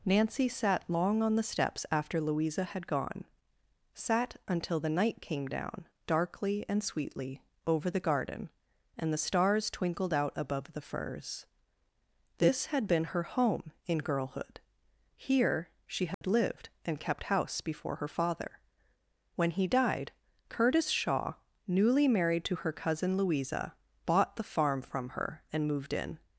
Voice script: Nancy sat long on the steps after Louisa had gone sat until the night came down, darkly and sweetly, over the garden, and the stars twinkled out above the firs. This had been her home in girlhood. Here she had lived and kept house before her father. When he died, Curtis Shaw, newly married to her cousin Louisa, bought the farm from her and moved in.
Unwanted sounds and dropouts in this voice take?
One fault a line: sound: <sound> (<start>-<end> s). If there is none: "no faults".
sound: dropout (16.1-16.2 s)